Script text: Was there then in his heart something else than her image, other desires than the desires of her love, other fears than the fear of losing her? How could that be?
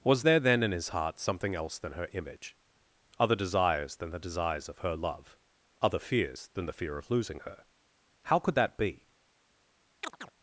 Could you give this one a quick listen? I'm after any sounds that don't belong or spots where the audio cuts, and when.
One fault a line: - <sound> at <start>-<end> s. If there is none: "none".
- chirp at 10.0-10.3 s